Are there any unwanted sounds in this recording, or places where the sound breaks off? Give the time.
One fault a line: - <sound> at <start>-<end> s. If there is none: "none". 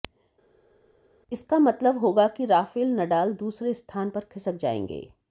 none